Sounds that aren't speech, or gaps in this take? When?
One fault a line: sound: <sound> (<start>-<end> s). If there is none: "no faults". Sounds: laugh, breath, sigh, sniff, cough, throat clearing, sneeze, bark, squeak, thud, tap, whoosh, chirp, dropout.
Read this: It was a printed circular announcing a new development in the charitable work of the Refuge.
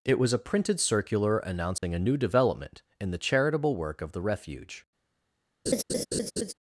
sound: dropout (1.8-1.8 s)
sound: laugh (5.7-6.5 s)